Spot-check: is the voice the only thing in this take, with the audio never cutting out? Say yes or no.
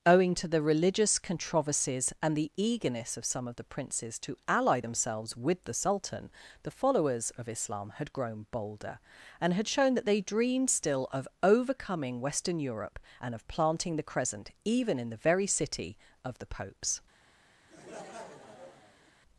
no